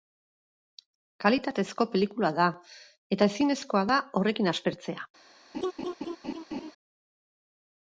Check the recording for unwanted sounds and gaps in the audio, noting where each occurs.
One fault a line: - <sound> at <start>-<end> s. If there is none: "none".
- laugh at 5.5-6.7 s